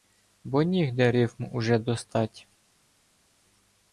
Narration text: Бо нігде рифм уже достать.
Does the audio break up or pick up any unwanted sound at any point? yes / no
no